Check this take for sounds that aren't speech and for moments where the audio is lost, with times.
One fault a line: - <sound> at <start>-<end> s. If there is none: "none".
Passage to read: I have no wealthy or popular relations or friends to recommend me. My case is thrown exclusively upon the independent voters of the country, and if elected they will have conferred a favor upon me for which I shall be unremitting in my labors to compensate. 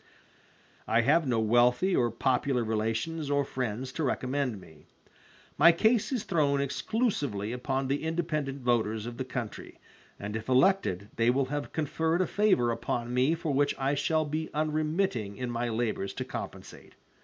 none